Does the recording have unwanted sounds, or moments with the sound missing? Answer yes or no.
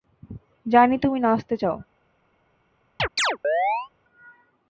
yes